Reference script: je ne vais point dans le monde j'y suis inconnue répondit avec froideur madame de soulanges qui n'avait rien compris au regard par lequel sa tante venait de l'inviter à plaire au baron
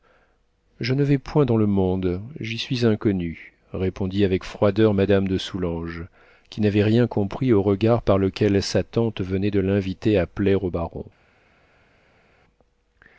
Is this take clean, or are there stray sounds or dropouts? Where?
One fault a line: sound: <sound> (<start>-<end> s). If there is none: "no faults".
no faults